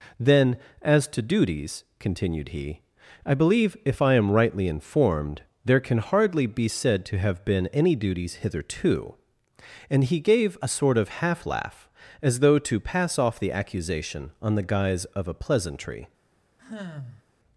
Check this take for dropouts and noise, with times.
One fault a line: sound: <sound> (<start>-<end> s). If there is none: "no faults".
sound: sigh (16.6-17.2 s)